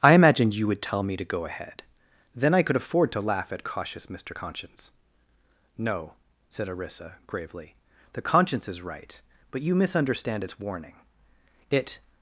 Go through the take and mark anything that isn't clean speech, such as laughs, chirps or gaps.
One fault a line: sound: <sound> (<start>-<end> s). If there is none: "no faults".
no faults